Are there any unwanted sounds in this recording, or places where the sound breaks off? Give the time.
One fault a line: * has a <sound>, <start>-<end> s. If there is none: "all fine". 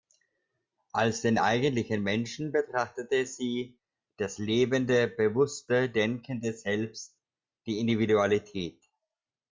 all fine